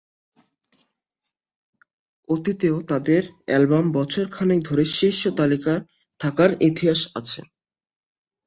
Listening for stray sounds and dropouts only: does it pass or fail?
pass